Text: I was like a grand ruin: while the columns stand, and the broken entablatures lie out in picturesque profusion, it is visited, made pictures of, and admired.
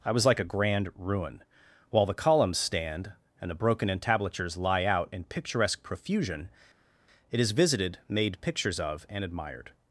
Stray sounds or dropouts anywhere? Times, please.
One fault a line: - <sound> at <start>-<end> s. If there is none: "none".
none